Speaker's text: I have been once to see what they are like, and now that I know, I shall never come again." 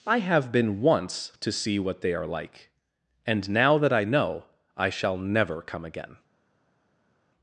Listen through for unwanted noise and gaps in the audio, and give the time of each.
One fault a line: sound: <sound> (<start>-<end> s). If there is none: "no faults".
no faults